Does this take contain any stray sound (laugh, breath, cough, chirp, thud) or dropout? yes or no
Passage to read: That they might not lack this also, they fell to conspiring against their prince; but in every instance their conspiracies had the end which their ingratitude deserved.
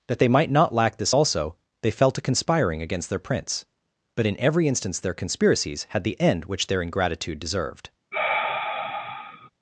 yes